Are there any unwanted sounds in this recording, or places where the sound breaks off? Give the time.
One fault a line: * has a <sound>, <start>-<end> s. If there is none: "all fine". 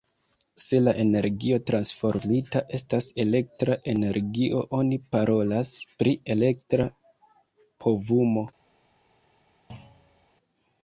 * has a thud, 9.7-10.3 s